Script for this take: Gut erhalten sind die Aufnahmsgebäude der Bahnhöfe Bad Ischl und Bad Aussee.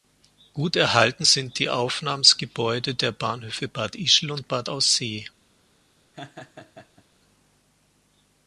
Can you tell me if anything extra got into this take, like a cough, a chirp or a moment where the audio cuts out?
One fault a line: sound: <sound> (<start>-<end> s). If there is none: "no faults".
sound: laugh (6.1-7.1 s)